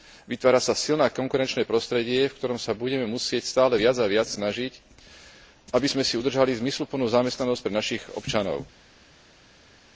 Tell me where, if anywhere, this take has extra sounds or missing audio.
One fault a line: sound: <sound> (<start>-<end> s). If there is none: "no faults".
no faults